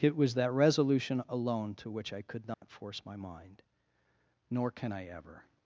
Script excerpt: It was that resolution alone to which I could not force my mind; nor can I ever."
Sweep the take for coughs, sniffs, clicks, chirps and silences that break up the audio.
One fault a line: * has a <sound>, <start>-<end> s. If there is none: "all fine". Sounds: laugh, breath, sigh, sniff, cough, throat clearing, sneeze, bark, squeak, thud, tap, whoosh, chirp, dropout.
* has a dropout, 2.5-2.6 s